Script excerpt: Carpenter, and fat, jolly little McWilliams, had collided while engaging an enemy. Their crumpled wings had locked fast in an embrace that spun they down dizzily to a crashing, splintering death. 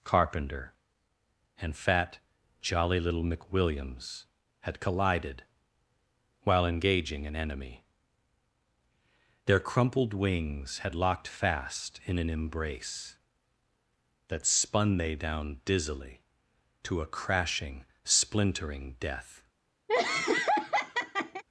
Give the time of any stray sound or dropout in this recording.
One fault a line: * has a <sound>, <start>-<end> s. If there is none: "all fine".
* has a laugh, 19.9-21.4 s